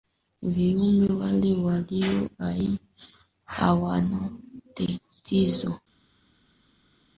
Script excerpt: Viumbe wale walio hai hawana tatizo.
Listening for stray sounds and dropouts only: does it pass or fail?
pass